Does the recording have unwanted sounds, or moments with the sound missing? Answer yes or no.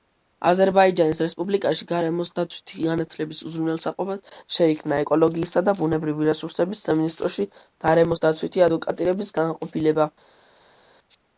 no